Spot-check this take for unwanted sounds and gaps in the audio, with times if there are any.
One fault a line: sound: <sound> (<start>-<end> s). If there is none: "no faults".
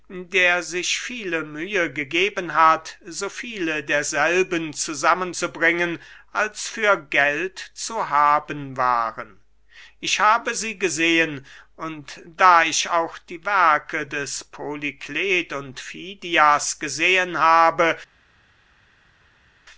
no faults